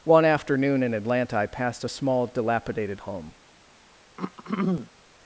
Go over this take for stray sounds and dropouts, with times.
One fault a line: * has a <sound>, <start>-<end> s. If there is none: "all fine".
* has a throat clearing, 4.2-4.9 s